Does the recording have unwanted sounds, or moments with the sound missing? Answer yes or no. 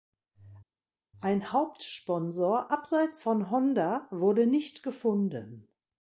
no